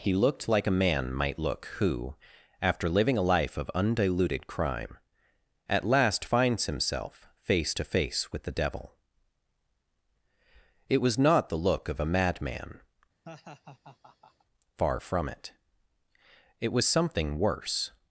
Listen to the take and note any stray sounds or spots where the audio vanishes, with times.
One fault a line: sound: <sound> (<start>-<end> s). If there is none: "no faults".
sound: laugh (13.2-14.4 s)